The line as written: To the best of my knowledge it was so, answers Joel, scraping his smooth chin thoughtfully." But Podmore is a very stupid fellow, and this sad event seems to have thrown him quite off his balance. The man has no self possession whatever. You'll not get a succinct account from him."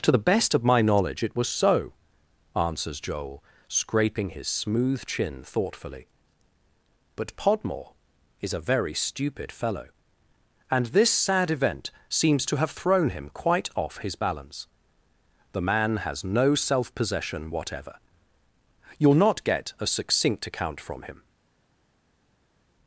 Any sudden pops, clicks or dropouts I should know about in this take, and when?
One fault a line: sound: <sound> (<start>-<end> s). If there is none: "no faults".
no faults